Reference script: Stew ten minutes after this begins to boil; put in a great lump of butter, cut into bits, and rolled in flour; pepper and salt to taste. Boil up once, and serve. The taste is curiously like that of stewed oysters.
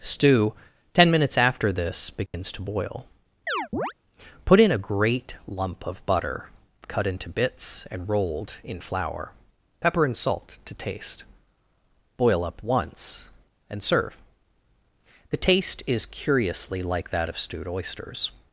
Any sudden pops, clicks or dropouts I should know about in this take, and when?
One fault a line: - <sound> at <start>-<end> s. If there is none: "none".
- dropout at 2.3-2.3 s
- chirp at 3.5-3.9 s